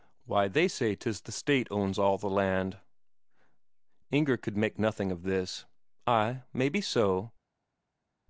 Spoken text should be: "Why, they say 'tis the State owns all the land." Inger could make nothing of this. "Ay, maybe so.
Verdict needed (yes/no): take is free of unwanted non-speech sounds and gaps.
yes